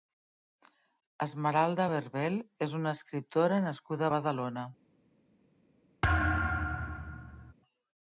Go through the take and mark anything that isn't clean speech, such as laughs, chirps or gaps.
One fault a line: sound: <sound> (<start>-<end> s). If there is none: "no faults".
sound: thud (6.0-7.5 s)